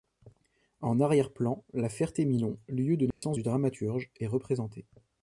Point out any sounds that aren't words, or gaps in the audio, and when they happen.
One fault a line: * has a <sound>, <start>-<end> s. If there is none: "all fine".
* has a dropout, 3.1-3.2 s